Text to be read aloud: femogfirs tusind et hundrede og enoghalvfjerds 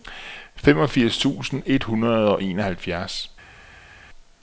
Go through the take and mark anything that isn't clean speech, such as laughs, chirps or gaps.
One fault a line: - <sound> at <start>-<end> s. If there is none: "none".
none